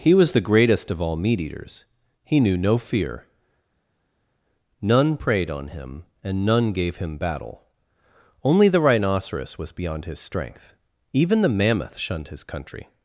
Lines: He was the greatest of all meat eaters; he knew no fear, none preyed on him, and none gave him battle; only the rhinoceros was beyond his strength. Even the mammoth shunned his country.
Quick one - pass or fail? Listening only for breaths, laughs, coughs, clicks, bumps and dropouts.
pass